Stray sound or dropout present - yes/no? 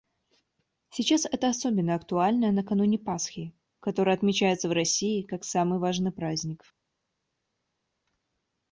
no